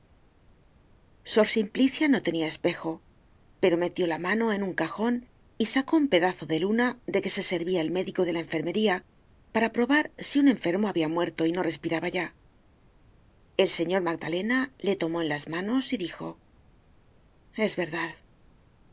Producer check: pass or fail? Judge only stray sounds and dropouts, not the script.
pass